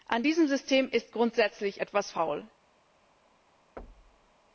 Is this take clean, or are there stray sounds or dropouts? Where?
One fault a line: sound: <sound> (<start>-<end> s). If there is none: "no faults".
sound: thud (3.8-4.3 s)